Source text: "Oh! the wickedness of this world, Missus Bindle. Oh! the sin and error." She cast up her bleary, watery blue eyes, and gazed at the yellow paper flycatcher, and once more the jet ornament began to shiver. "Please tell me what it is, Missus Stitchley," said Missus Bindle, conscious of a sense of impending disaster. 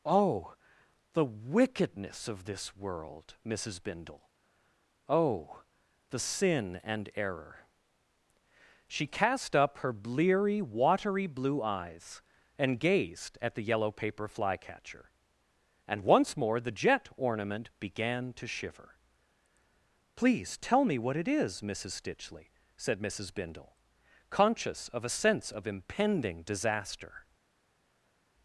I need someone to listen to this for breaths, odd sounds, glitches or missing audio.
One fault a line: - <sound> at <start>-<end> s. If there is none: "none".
none